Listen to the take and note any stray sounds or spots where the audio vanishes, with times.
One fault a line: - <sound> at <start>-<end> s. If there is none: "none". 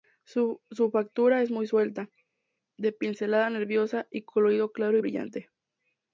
none